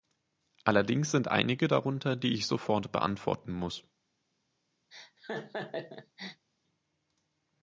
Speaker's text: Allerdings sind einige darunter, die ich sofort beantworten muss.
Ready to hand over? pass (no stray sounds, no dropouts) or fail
fail